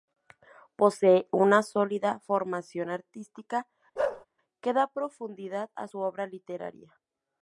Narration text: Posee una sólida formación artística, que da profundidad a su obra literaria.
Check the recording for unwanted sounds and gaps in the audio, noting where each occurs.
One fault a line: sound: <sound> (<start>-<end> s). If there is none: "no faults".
sound: bark (4.0-4.3 s)